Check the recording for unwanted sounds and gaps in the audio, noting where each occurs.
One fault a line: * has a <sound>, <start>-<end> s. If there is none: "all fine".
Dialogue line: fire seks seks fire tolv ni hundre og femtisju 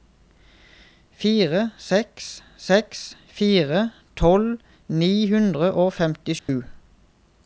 * has a dropout, 6.4-6.5 s